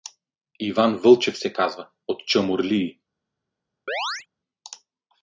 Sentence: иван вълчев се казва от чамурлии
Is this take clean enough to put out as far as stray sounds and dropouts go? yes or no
no